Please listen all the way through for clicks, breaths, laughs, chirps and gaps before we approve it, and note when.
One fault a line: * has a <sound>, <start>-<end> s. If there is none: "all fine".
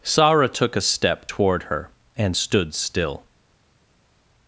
all fine